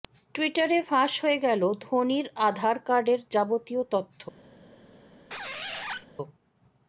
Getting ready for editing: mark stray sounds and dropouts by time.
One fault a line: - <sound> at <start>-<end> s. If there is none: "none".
- squeak at 5.3-6.1 s